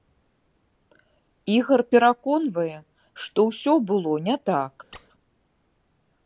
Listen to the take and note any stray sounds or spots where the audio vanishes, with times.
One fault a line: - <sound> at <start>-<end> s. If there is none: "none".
- squeak at 4.9-5.1 s